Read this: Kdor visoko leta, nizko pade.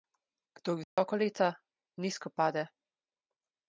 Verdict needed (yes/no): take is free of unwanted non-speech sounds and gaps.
no